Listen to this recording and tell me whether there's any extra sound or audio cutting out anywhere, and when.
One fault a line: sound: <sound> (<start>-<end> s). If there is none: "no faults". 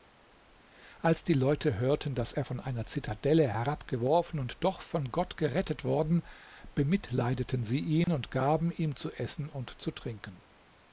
sound: dropout (8.0-8.1 s)